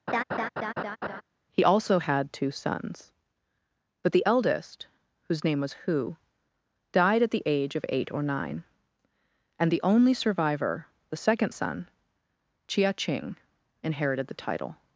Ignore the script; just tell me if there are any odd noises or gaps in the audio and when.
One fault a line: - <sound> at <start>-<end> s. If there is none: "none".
- laugh at 0.1-1.2 s